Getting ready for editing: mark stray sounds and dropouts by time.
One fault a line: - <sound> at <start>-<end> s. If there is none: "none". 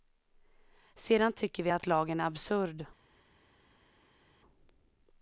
none